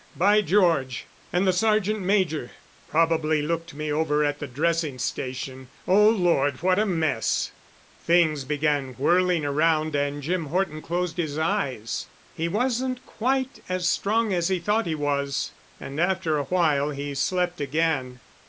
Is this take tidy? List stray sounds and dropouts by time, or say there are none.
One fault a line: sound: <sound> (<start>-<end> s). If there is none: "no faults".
no faults